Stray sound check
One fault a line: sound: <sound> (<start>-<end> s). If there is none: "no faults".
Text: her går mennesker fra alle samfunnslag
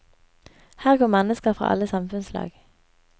no faults